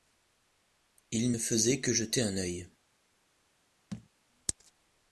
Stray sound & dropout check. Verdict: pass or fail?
fail